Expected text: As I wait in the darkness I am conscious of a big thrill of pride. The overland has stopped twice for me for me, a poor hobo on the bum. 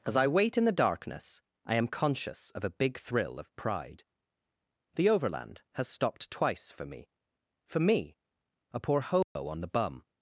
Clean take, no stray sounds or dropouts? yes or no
no